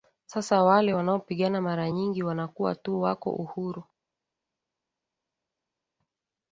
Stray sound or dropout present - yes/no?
no